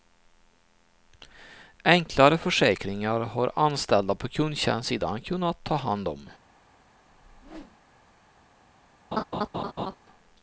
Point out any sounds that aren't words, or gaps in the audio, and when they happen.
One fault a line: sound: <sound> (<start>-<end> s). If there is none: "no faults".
sound: whoosh (7.0-7.8 s)
sound: laugh (9.1-10.0 s)